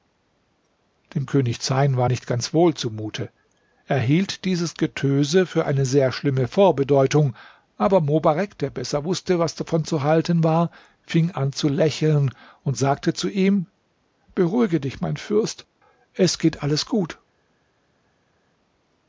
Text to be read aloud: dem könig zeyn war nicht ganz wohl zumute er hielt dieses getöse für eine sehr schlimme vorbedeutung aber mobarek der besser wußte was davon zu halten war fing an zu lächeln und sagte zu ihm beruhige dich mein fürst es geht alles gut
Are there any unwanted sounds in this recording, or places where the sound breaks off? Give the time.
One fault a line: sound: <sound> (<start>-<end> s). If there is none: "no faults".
no faults